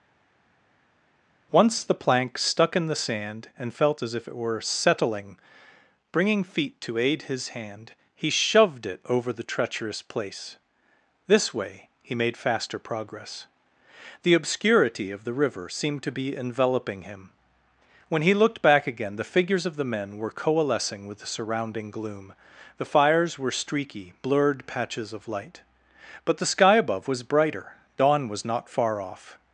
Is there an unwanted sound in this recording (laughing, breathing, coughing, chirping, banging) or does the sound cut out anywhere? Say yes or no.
no